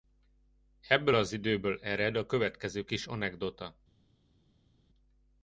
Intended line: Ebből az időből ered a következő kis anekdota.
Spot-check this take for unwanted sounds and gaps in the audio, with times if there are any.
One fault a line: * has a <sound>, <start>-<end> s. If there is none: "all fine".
all fine